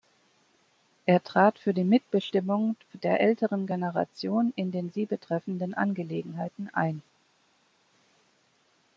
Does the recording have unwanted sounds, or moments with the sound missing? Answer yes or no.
no